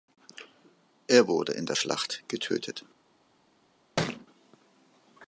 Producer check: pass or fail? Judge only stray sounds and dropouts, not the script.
fail